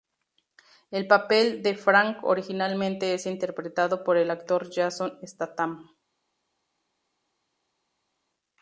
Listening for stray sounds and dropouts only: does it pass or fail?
pass